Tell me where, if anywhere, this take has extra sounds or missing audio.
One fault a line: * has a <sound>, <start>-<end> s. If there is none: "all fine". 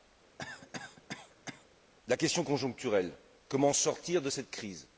* has a cough, 0.4-1.7 s